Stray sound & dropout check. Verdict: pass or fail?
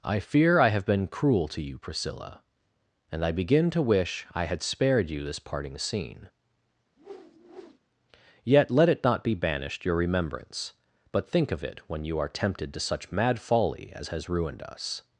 fail